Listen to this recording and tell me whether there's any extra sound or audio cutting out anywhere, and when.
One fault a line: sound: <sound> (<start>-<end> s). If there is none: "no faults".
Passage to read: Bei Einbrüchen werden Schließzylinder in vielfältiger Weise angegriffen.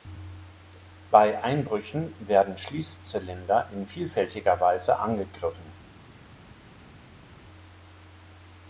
no faults